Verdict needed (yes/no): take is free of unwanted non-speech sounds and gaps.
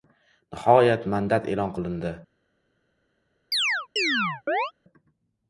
no